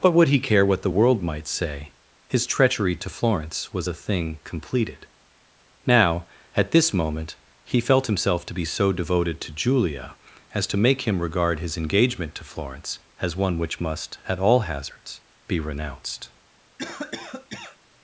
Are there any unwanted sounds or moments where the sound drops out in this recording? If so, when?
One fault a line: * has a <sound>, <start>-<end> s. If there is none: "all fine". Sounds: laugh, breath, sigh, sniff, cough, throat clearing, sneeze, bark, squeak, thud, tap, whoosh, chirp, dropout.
* has a cough, 16.8-17.8 s